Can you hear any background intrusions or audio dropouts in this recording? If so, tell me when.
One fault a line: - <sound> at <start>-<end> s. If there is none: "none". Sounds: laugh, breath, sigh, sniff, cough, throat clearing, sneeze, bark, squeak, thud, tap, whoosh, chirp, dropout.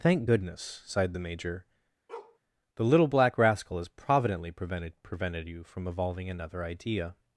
- bark at 2.1-2.4 s